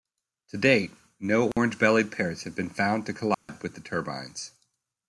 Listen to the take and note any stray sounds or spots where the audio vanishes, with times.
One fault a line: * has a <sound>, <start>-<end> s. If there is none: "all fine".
* has a dropout, 1.5-1.6 s
* has a dropout, 3.3-3.5 s